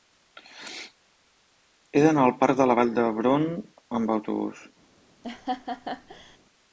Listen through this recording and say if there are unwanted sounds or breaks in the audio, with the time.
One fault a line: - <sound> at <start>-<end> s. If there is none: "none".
- laugh at 5.2-6.4 s